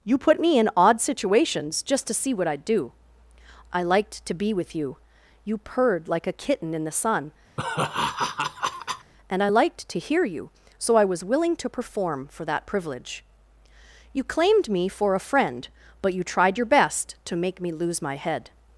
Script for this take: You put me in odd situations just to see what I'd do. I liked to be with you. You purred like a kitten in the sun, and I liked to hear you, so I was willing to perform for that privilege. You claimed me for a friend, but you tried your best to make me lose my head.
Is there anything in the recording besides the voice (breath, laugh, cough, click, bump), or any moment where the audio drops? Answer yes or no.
yes